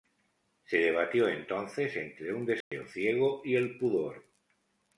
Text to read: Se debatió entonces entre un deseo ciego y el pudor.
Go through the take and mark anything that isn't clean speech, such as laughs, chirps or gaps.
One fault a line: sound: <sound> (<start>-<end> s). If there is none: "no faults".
sound: dropout (2.6-2.7 s)